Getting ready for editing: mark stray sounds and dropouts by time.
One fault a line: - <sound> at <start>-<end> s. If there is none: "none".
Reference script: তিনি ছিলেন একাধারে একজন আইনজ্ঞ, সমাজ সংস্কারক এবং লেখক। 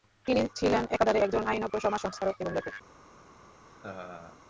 - laugh at 3.7-4.4 s